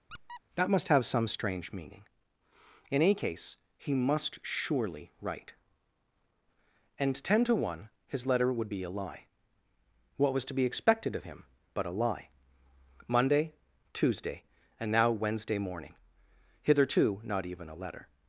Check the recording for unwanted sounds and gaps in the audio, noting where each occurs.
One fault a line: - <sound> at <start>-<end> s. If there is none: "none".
- squeak at 0.1-0.4 s